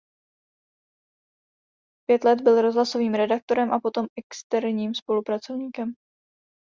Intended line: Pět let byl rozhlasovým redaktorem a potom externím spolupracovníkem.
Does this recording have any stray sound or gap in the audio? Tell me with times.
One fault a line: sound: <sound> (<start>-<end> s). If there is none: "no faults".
no faults